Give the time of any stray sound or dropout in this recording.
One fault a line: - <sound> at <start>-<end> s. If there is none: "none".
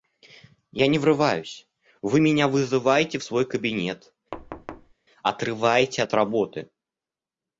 - thud at 4.3-4.9 s